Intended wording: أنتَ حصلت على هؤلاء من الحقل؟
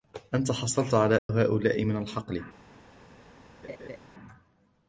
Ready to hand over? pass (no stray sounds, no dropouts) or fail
fail